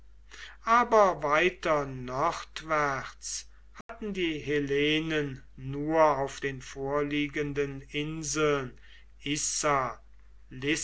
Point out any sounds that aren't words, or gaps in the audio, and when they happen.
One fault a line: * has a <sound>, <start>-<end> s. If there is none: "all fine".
* has a dropout, 3.8-3.9 s